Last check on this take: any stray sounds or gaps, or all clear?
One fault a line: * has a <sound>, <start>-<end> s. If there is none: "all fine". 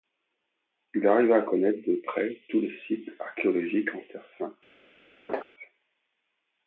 * has a laugh, 5.3-5.4 s